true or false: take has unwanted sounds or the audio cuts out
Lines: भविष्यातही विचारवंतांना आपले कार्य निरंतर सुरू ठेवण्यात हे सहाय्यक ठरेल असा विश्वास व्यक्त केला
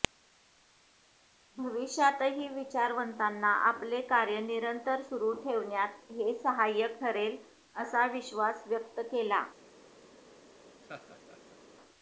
true